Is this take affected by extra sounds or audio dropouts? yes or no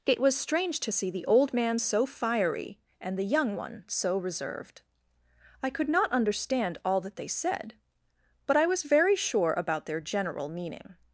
no